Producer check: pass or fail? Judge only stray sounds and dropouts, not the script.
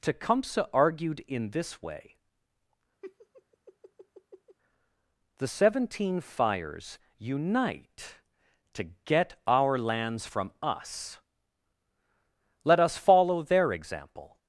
fail